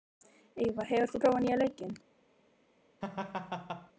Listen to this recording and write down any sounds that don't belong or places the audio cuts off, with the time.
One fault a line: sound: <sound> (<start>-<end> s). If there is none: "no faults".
sound: laugh (3.0-3.9 s)